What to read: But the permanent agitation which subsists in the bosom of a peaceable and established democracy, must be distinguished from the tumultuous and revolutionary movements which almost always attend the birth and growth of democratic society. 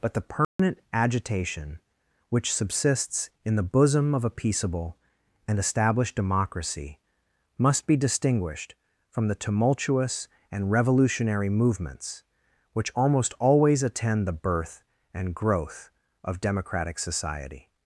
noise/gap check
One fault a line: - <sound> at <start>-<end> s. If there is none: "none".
- dropout at 0.4-0.6 s